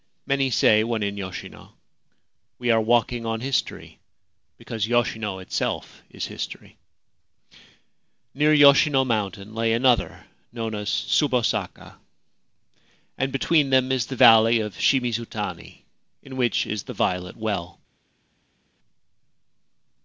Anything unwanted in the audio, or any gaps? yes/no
no